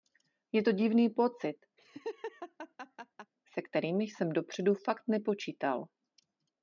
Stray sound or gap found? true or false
true